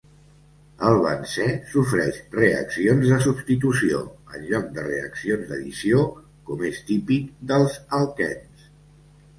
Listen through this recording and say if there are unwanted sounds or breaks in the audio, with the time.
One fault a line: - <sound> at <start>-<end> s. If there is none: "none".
none